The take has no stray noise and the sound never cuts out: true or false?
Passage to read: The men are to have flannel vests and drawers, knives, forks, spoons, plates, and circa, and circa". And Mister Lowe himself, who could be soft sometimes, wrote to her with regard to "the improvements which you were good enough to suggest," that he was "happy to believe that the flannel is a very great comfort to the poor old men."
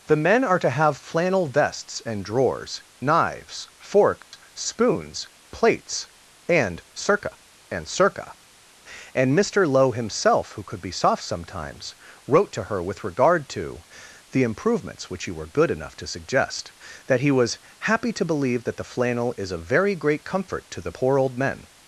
false